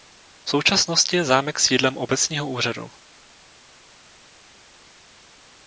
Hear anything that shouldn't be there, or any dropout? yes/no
no